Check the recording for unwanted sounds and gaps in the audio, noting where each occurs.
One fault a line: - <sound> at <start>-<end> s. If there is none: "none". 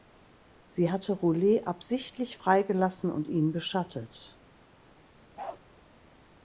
- bark at 5.4-5.6 s